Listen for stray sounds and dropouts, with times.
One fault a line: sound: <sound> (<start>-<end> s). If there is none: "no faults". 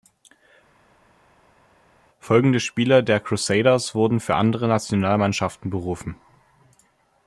no faults